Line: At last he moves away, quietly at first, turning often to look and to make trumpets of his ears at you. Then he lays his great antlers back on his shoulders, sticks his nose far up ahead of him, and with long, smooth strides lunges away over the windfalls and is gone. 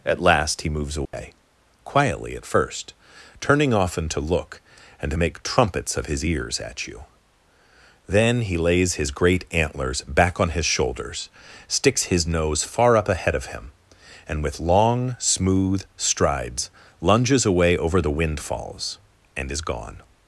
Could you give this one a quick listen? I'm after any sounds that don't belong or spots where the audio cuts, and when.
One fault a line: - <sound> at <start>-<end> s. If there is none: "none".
- dropout at 1.1-1.1 s